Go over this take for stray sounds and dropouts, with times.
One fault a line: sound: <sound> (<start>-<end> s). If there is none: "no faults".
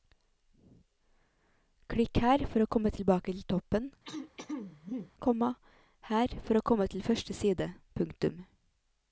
sound: throat clearing (4.0-5.1 s)